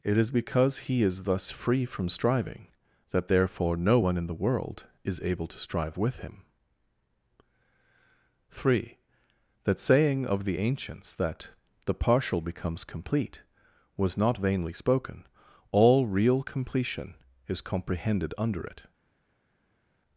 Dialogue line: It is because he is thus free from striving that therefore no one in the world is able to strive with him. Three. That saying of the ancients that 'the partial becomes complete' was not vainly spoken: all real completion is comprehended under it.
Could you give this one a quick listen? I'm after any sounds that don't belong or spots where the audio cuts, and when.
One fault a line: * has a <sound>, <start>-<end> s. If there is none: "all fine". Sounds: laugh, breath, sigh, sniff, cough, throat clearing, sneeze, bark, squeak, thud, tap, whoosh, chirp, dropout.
all fine